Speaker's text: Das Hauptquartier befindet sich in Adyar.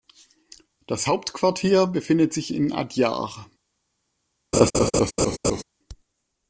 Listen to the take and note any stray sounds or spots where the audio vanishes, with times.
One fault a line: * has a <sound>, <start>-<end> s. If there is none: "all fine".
* has a laugh, 4.5-5.6 s